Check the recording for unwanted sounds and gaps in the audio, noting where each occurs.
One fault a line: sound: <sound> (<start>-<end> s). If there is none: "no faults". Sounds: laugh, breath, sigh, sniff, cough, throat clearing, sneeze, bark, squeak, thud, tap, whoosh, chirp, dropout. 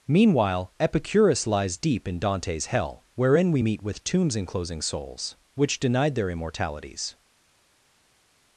no faults